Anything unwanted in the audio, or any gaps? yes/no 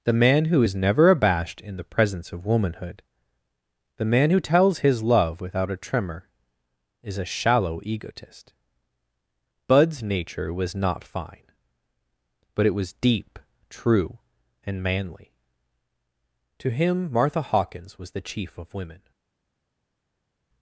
no